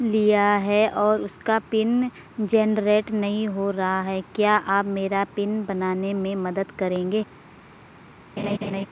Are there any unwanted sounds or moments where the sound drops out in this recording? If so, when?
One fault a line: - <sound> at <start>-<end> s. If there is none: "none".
- laugh at 8.4-8.9 s